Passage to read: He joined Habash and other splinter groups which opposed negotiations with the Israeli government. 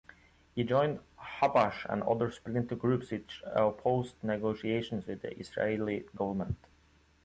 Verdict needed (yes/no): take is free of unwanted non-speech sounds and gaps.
yes